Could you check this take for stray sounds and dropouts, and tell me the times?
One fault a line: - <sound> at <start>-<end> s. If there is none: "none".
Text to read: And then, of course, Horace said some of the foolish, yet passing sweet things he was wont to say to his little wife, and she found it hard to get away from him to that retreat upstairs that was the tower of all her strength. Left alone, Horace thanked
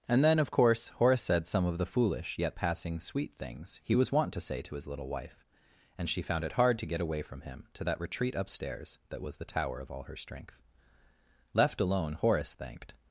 none